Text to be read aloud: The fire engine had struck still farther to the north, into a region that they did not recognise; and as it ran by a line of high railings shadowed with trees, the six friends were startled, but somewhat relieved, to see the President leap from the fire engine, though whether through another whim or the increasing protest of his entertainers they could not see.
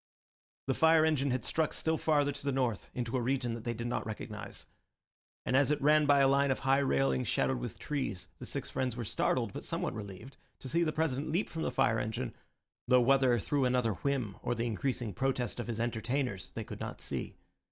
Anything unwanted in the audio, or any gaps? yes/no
no